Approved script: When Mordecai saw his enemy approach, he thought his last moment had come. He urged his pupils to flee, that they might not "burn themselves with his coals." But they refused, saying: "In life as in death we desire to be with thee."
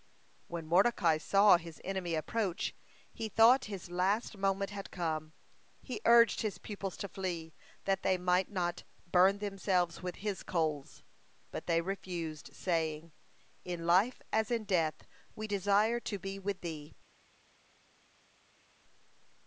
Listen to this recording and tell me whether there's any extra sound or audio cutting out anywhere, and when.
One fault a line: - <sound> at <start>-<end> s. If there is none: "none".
none